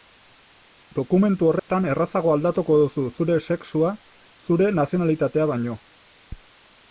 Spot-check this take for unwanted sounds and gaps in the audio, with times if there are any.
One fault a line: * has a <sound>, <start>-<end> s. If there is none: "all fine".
* has a dropout, 1.6-1.7 s